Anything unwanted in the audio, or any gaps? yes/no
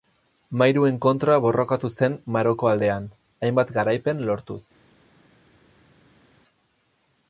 no